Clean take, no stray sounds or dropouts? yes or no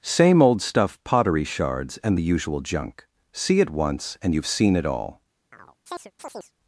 no